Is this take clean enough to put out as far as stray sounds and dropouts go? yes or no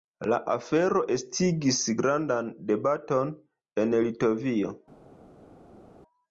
yes